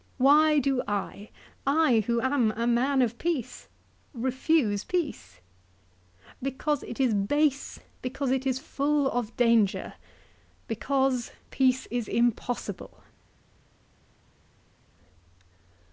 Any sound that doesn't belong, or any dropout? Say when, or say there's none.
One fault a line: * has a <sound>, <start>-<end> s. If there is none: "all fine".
all fine